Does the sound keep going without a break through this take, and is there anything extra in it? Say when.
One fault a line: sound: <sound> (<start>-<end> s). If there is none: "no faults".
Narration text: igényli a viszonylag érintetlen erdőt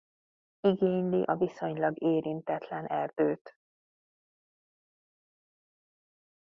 no faults